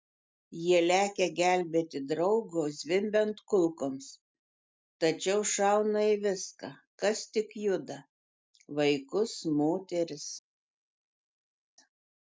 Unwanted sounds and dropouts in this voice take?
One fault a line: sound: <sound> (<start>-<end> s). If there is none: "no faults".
no faults